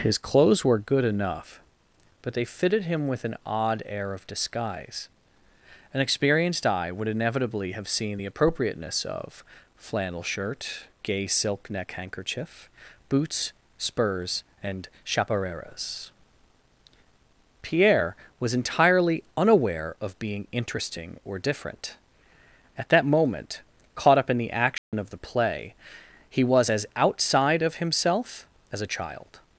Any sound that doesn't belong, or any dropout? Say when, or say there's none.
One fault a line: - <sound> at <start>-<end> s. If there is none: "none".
- dropout at 24.8-24.9 s